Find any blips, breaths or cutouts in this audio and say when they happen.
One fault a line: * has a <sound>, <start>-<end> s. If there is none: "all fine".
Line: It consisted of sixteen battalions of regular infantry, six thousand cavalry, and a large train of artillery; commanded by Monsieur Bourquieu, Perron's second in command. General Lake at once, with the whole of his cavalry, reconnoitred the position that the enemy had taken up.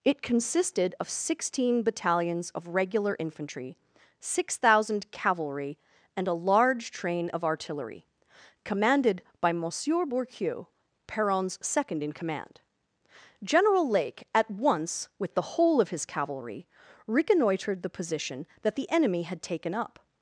all fine